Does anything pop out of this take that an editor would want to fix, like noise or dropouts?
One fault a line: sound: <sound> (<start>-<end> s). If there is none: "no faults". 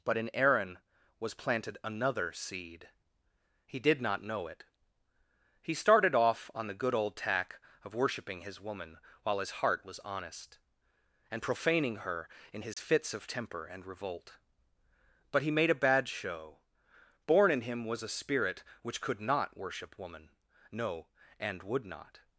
sound: dropout (12.7-12.8 s)